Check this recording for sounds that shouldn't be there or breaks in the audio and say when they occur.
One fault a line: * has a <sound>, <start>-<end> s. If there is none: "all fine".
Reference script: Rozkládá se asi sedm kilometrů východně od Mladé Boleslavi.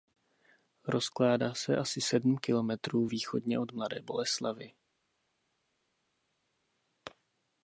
all fine